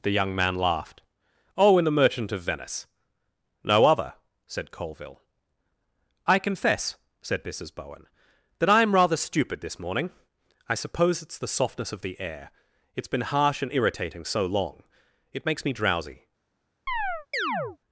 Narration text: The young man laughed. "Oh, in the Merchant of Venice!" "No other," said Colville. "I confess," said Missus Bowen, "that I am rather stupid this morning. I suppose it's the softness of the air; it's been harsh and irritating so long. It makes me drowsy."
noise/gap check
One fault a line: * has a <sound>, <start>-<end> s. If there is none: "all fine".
* has a chirp, 16.9-17.8 s